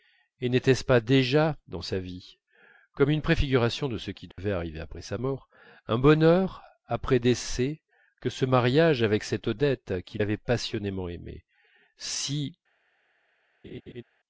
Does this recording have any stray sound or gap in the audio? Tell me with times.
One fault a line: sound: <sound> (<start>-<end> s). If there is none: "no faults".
sound: dropout (4.3-4.4 s)
sound: laugh (13.6-14.0 s)